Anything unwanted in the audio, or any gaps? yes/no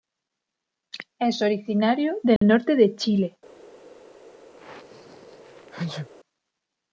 yes